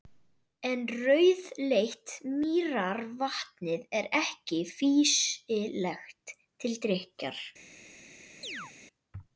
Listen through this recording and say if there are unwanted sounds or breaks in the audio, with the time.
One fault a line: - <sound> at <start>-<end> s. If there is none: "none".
- chirp at 8.4-8.7 s